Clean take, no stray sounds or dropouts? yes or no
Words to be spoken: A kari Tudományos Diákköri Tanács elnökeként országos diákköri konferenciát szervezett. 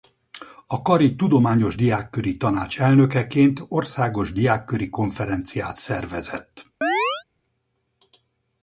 no